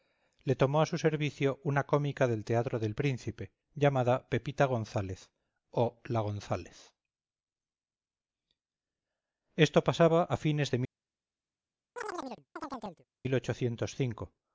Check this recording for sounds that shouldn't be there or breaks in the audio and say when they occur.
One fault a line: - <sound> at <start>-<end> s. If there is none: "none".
- chirp at 12.0-13.1 s